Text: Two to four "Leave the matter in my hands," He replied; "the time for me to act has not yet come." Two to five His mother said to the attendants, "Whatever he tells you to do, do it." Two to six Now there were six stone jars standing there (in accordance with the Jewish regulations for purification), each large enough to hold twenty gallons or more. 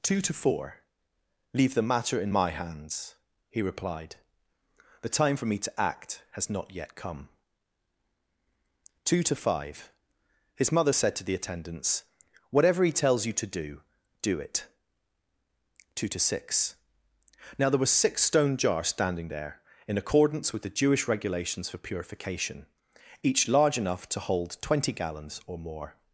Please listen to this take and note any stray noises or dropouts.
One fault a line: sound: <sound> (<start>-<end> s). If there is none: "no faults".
no faults